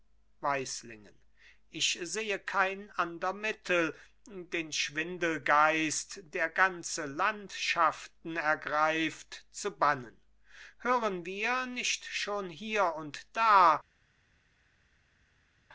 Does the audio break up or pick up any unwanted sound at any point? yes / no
no